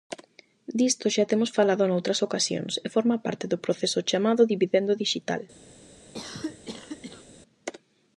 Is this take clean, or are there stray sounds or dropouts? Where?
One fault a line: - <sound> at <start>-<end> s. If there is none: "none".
- cough at 6.1-7.2 s